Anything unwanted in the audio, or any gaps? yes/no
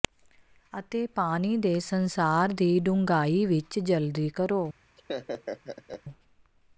yes